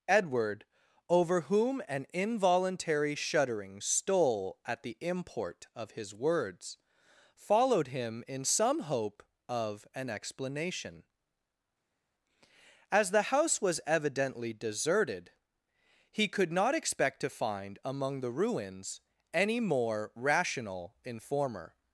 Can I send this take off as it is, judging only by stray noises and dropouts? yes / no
yes